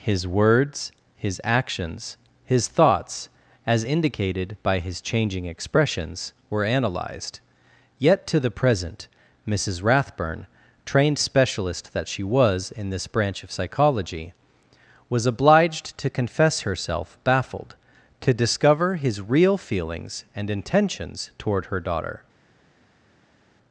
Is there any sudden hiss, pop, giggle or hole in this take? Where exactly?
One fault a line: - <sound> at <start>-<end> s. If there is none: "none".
none